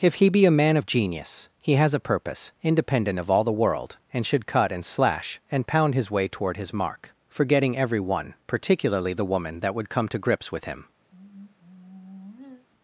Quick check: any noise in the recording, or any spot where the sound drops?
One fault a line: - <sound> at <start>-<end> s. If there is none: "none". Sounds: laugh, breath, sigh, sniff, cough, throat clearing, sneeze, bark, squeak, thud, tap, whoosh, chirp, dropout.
- sigh at 11.1-12.7 s